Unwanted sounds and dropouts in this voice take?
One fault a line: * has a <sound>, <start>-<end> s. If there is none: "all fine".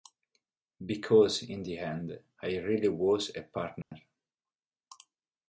* has a dropout, 3.8-3.9 s